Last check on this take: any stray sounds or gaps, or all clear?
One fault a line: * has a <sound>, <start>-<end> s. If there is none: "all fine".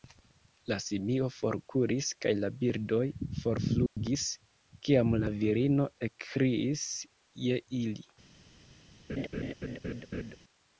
* has a dropout, 3.9-4.0 s
* has a laugh, 9.1-10.4 s